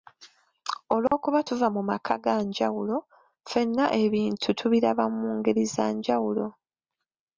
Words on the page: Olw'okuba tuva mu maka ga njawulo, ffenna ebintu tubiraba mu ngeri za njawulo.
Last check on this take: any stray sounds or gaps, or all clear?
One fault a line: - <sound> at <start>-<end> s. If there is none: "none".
- dropout at 1.1-1.1 s